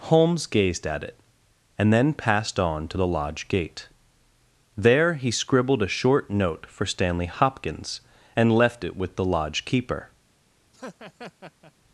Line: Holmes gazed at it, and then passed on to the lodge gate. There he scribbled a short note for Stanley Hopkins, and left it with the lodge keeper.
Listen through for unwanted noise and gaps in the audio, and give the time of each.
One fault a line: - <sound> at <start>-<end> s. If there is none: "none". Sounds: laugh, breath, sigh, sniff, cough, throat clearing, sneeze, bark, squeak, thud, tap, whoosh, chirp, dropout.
- laugh at 10.7-11.7 s